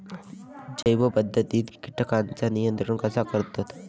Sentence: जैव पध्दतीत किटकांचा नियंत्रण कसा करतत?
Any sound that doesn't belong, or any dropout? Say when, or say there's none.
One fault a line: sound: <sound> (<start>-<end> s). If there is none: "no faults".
sound: dropout (0.8-0.9 s)